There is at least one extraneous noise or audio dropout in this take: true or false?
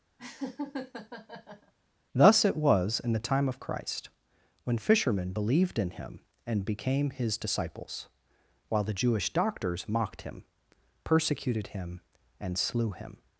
true